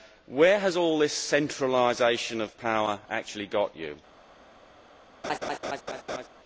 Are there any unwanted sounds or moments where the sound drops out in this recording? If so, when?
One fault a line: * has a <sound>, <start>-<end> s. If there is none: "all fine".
* has a laugh, 5.2-6.3 s